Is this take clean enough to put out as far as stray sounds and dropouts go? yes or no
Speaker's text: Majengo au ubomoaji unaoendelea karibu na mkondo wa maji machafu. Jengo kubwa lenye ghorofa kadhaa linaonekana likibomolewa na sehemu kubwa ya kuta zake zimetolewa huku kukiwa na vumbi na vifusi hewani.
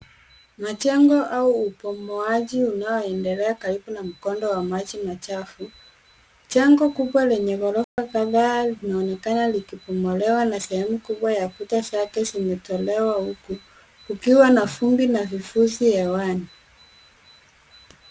no